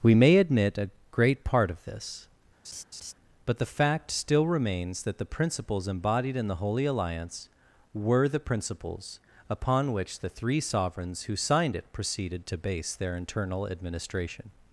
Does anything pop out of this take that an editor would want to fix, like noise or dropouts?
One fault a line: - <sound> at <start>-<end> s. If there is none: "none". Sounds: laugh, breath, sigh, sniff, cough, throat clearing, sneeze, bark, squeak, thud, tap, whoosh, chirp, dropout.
- laugh at 2.6-3.1 s